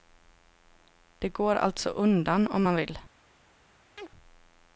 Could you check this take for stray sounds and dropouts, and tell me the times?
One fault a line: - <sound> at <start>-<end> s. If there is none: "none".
- chirp at 4.0-4.1 s